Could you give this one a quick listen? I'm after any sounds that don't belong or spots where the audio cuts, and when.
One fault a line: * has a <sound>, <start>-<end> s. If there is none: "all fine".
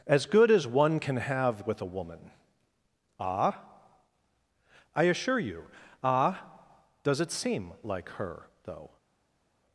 all fine